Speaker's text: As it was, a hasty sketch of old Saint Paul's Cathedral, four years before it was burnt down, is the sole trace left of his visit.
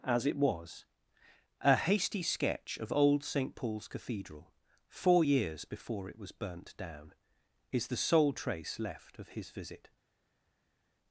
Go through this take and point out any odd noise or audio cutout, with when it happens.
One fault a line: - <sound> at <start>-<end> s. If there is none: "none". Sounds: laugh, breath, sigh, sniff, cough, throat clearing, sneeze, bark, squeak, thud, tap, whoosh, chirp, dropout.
none